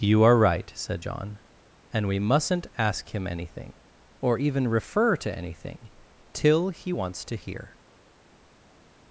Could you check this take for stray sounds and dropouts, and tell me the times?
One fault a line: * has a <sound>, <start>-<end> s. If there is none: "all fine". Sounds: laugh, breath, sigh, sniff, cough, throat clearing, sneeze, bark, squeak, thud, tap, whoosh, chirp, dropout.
all fine